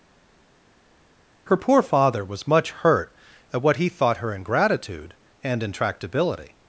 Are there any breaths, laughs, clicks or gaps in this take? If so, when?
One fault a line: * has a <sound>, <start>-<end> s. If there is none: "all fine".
all fine